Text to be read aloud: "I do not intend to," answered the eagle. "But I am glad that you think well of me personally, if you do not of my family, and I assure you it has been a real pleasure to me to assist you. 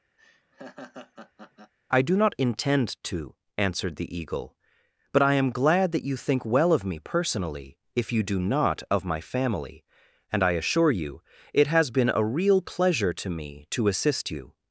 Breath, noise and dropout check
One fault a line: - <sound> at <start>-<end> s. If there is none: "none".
- laugh at 0.2-1.7 s